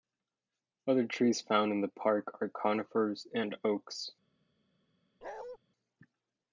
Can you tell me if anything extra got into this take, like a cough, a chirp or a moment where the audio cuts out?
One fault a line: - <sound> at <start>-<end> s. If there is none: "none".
- bark at 5.2-5.6 s